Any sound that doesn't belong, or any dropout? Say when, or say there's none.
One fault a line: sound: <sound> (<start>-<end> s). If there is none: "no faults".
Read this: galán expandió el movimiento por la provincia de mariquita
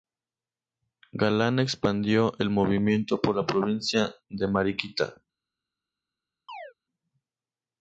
sound: chirp (6.5-6.7 s)